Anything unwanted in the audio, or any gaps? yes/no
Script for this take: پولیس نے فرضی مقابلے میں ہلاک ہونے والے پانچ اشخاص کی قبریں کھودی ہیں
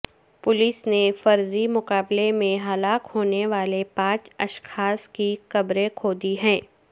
no